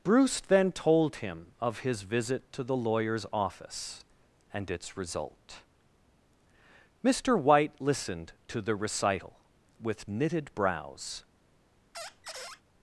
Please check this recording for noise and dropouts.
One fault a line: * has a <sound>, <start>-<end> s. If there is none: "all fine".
* has a squeak, 11.9-12.6 s